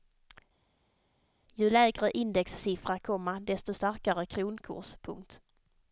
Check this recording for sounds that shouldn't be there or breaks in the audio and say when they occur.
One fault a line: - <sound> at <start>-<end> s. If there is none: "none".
none